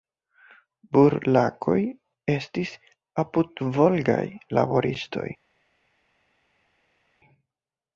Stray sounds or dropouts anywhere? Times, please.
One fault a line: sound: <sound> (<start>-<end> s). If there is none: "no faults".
no faults